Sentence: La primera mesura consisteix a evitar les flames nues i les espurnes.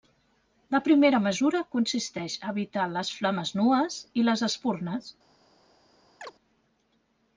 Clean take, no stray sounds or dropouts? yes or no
no